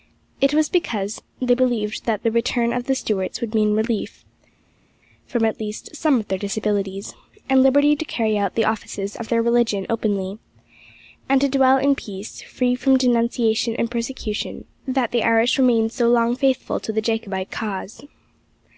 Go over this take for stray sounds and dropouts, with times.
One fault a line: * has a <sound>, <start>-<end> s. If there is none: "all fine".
all fine